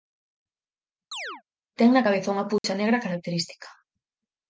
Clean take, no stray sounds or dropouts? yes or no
no